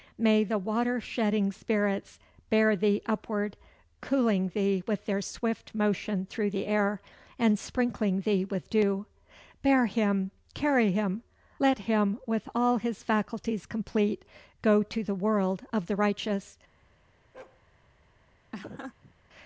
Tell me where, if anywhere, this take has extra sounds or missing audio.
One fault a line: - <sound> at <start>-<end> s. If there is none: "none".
- bark at 17.3-17.6 s
- laugh at 18.5-19.1 s